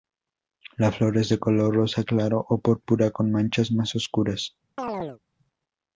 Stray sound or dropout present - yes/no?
yes